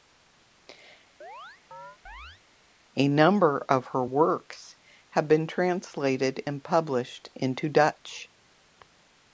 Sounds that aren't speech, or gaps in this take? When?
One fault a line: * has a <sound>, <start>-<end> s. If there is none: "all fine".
* has a chirp, 1.2-2.4 s